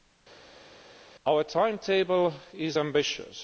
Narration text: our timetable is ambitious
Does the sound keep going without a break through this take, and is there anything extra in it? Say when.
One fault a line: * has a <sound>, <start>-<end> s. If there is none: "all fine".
all fine